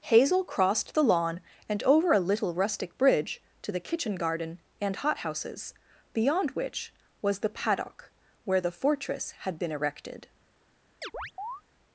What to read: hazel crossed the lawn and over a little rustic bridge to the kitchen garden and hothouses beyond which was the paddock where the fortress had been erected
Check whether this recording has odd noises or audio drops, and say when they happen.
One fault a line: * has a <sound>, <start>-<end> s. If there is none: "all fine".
* has a chirp, 11.0-11.6 s